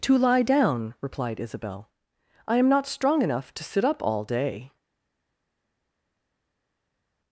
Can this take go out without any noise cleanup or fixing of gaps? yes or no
yes